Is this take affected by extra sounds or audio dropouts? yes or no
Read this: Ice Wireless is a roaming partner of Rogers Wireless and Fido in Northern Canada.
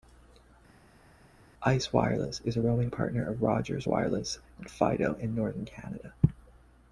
no